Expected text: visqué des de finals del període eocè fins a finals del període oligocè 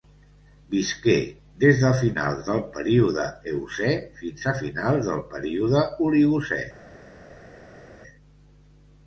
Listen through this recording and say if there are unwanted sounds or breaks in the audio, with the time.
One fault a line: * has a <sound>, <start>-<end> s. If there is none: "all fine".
all fine